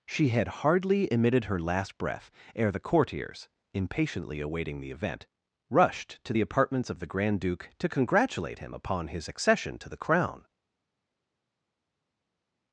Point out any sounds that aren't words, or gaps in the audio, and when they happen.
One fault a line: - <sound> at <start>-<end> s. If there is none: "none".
none